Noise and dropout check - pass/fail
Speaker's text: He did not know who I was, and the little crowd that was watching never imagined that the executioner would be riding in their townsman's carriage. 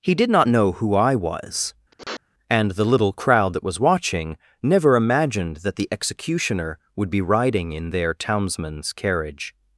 fail